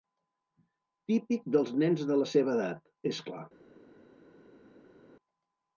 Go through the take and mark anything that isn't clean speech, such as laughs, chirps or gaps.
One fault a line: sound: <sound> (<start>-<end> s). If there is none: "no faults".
no faults